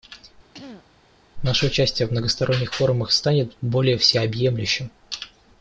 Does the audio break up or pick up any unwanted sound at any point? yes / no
yes